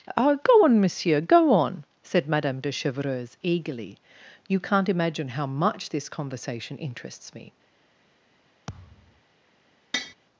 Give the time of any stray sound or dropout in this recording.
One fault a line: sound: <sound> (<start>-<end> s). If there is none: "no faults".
sound: thud (8.7-9.2 s)
sound: tap (9.9-10.1 s)